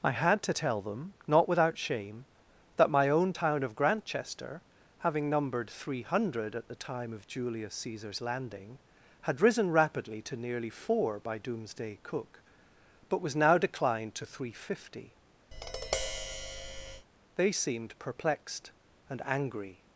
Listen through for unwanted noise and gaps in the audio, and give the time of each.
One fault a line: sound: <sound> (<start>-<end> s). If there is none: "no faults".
sound: tap (15.5-17.1 s)